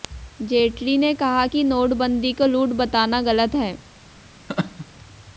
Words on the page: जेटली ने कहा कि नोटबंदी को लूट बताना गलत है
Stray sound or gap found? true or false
true